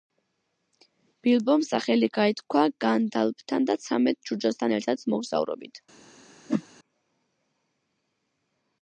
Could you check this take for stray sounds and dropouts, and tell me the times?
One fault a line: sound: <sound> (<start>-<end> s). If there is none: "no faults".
sound: whoosh (6.5-6.6 s)